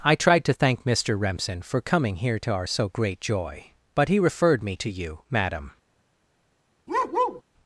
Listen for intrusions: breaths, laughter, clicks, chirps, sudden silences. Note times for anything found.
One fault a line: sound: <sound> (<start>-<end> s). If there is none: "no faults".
sound: bark (6.9-7.4 s)